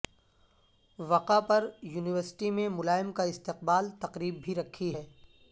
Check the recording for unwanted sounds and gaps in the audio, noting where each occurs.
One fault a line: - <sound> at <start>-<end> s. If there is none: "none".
none